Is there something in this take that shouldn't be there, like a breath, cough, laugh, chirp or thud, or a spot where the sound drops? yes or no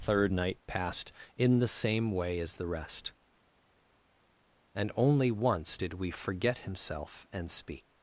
no